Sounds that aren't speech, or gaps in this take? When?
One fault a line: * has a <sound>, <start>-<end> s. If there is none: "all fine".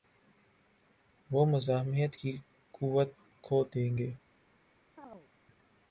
* has a chirp, 5.0-5.3 s